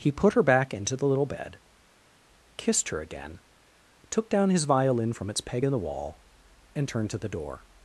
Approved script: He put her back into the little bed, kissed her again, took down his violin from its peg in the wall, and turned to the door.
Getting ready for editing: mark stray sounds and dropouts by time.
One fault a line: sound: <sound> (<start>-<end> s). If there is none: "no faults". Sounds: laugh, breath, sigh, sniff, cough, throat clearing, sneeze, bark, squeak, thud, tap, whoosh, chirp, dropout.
no faults